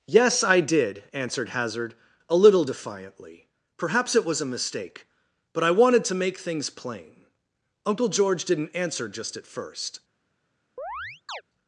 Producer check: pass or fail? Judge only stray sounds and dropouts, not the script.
fail